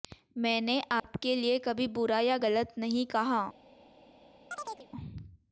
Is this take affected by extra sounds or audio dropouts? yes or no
yes